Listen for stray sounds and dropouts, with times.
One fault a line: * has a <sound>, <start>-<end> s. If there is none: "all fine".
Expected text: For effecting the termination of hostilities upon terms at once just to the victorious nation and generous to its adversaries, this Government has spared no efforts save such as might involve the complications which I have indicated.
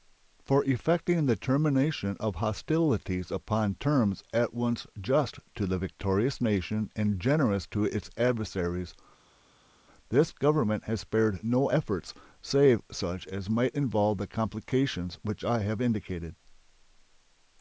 all fine